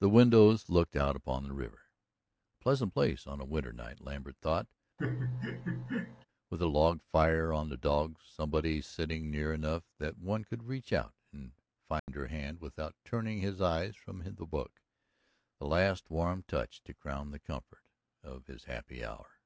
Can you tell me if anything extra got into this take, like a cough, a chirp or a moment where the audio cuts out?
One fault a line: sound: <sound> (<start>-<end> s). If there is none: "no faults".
sound: laugh (5.0-6.3 s)
sound: dropout (12.0-12.1 s)